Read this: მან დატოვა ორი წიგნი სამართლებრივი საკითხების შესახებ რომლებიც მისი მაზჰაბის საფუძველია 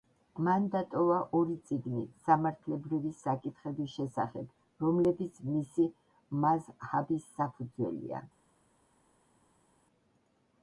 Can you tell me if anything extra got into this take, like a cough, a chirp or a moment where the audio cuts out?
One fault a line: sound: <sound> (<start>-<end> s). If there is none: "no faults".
no faults